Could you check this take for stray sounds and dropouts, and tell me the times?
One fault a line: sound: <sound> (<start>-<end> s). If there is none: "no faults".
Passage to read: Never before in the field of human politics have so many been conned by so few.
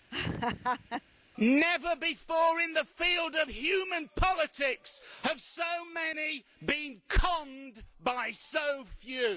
sound: laugh (0.1-1.0 s)